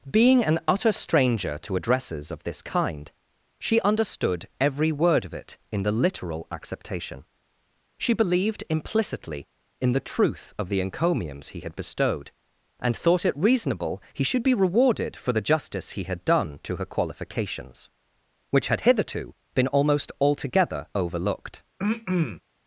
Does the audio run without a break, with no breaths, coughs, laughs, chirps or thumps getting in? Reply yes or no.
no